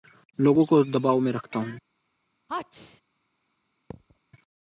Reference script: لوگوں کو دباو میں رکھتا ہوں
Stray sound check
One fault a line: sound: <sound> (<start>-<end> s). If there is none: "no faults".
sound: sneeze (2.5-3.0 s)
sound: thud (3.9-4.2 s)